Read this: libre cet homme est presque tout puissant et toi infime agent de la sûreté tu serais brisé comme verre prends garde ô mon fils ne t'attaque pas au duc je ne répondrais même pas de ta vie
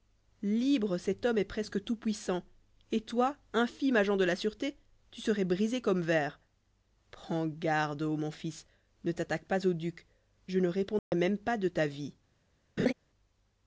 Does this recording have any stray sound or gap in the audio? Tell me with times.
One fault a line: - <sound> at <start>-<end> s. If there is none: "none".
- dropout at 11.0-11.1 s
- laugh at 12.8-12.9 s